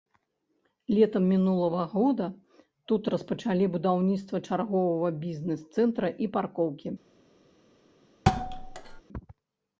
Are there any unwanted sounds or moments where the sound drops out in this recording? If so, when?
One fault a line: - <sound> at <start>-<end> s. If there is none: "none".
- thud at 8.3-9.0 s